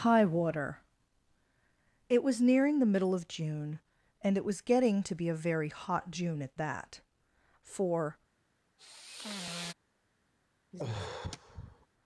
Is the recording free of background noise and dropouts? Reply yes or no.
no